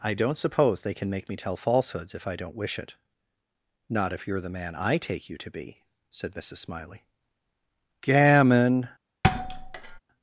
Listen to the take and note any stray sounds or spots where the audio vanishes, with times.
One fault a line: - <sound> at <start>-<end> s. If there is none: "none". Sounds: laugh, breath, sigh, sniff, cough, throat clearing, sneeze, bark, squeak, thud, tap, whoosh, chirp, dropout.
- thud at 9.2-10.0 s